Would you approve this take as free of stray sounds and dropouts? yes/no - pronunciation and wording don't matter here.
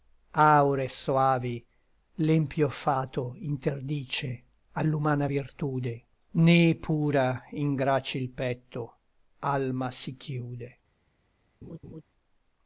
no